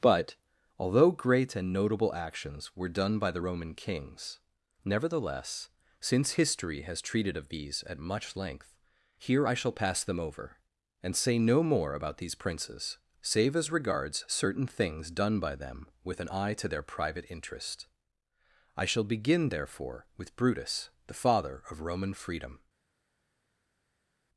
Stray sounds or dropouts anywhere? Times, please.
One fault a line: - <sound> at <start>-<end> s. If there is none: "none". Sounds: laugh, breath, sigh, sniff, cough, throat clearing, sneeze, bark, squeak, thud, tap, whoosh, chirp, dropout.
none